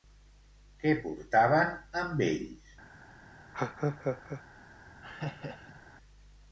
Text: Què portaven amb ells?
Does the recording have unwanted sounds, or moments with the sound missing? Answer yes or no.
yes